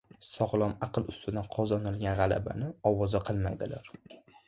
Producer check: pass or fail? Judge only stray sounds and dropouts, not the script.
pass